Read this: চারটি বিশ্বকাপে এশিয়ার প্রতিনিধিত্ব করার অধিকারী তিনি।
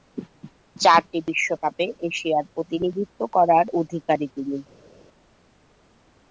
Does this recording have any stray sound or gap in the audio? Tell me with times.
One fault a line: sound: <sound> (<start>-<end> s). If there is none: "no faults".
no faults